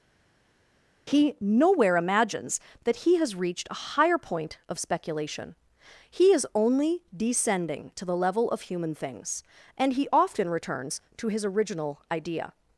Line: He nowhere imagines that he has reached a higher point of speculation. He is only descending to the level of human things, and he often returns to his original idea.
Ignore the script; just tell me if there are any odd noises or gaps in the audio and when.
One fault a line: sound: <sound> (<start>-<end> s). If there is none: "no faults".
no faults